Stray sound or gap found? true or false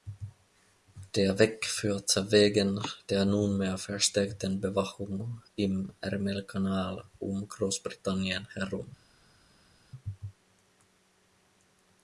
false